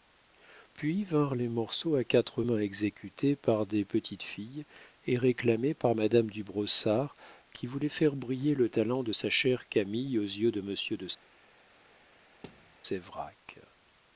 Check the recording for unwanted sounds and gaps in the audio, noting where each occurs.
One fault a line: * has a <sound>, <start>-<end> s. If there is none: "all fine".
* has a thud, 12.4-12.8 s